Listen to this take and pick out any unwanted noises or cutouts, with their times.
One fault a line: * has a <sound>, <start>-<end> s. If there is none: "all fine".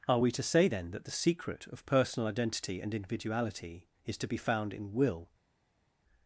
all fine